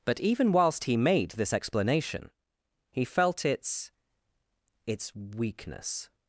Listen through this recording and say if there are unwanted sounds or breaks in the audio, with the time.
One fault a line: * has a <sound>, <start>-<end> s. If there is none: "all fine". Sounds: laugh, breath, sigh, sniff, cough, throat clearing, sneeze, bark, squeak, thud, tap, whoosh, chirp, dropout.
all fine